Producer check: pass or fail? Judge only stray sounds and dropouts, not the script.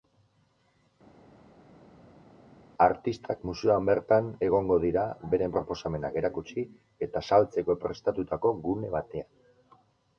pass